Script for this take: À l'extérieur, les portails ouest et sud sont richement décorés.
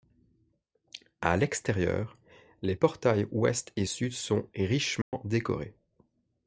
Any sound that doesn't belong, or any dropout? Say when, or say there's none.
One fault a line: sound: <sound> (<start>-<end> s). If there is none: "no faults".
sound: dropout (5.0-5.1 s)